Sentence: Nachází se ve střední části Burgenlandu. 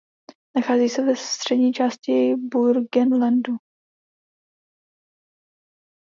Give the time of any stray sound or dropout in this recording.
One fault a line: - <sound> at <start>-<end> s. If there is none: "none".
none